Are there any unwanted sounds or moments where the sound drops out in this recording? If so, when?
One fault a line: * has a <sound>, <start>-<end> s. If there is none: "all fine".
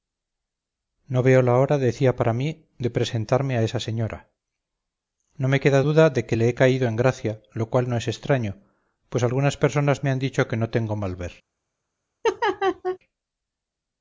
* has a laugh, 12.2-13.0 s